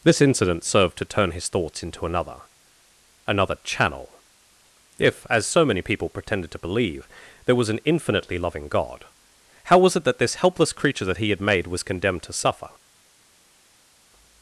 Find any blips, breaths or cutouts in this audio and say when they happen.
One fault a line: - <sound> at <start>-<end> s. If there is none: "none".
none